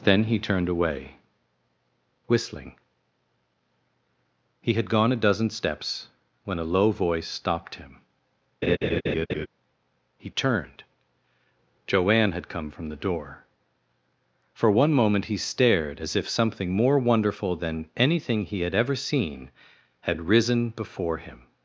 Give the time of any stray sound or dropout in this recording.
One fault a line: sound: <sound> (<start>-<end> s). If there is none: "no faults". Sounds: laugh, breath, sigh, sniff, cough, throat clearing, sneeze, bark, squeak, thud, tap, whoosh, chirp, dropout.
sound: laugh (8.6-9.5 s)